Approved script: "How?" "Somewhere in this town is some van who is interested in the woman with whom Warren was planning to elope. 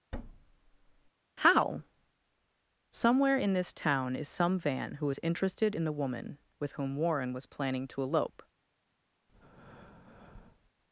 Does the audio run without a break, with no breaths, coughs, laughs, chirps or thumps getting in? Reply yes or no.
no